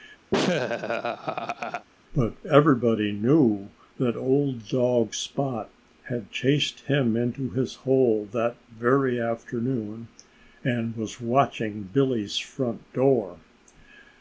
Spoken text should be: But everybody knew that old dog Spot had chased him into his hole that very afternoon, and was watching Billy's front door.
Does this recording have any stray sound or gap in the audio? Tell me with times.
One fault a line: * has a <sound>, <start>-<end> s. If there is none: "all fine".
* has a laugh, 0.3-1.9 s